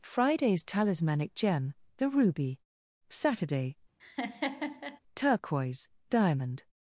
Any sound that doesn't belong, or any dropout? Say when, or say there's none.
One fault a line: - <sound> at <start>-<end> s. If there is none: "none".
- laugh at 4.0-5.0 s